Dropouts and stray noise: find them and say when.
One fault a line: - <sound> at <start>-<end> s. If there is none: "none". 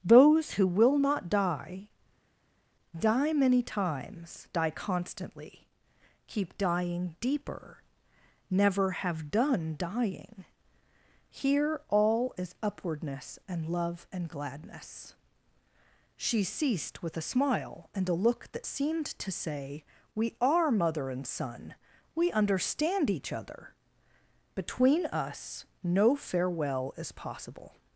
none